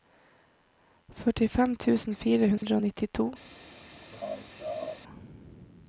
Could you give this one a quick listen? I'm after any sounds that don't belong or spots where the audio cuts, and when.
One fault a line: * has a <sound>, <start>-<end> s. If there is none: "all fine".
* has a dropout, 2.6-2.6 s
* has a laugh, 4.1-5.0 s